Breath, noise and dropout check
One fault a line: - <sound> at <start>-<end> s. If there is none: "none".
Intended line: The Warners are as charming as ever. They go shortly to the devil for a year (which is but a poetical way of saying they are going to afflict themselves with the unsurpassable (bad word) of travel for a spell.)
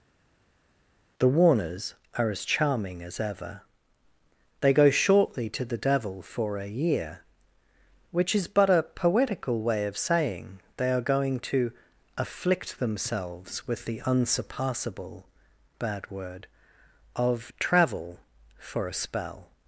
none